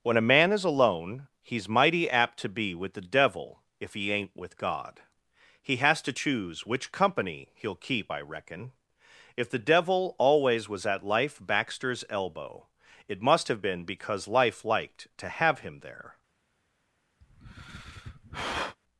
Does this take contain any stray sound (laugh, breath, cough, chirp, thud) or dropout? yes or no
yes